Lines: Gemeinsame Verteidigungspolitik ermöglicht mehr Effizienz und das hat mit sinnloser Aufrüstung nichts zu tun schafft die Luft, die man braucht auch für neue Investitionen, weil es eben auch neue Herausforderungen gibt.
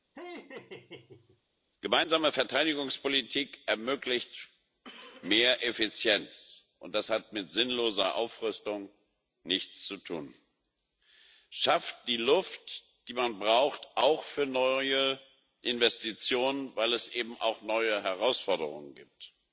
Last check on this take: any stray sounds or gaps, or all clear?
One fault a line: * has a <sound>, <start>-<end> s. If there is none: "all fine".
* has a laugh, 0.1-1.4 s